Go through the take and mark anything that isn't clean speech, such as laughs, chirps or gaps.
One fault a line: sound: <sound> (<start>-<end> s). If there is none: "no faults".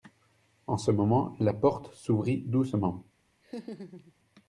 sound: laugh (3.4-4.1 s)